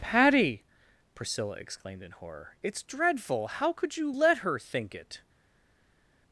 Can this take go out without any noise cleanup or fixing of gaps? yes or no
yes